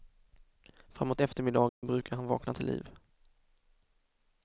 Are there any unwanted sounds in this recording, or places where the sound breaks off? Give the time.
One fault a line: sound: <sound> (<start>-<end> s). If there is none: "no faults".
sound: dropout (1.7-1.8 s)